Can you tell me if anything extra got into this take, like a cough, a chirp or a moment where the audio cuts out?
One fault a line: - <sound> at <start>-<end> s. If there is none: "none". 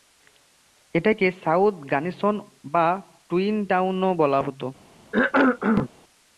- cough at 5.1-5.9 s